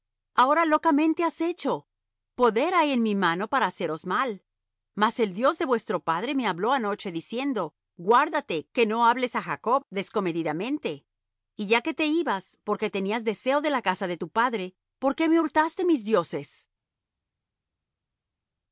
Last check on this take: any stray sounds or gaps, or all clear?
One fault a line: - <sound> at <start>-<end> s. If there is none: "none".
none